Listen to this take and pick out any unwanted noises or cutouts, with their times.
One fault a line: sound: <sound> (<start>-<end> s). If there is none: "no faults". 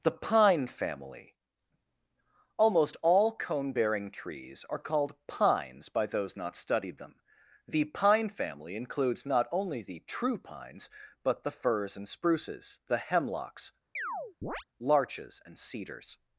sound: chirp (14.0-14.6 s)